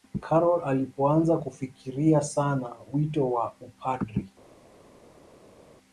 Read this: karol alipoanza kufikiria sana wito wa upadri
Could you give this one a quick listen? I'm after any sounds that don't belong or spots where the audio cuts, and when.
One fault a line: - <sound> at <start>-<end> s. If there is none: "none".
none